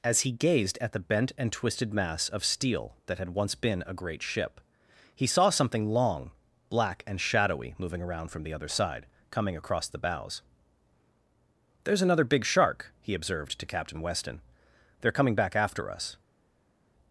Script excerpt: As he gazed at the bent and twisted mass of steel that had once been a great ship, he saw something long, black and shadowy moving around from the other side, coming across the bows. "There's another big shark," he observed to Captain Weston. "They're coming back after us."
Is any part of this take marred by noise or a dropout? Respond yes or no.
no